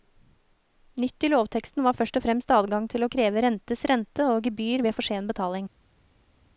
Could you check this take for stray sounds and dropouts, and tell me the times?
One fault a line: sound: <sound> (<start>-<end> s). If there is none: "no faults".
no faults